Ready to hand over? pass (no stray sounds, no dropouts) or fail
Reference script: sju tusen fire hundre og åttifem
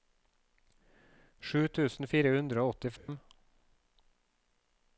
fail